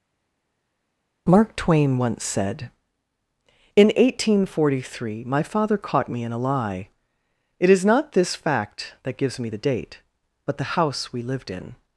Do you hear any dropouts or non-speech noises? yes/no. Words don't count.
no